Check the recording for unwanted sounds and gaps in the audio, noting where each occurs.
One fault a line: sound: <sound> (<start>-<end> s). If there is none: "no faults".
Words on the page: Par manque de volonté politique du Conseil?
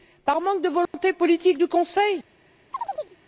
sound: dropout (0.9-0.9 s)
sound: chirp (2.7-3.2 s)